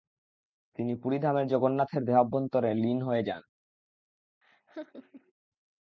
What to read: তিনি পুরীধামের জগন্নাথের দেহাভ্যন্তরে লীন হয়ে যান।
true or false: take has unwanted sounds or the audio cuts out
true